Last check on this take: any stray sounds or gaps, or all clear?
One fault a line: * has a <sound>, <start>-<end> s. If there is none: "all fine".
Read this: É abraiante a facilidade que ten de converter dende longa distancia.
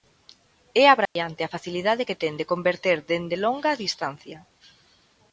* has a dropout, 1.1-1.2 s